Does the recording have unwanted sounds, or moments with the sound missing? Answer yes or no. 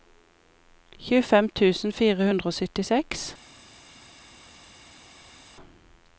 no